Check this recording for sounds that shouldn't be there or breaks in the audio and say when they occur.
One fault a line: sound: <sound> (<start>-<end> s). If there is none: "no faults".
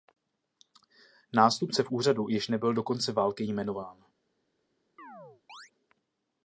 sound: chirp (5.0-5.7 s)